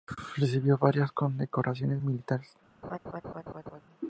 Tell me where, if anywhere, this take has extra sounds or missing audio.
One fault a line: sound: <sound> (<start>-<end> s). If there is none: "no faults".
sound: laugh (2.8-3.8 s)